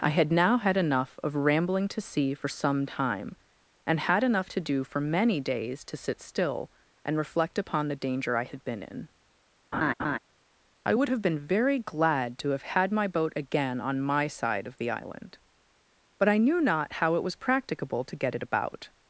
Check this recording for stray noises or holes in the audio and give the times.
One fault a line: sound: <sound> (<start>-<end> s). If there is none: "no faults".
sound: laugh (9.7-10.2 s)